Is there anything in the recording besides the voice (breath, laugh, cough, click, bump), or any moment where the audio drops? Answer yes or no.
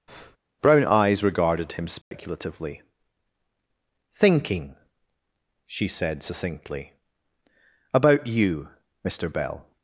yes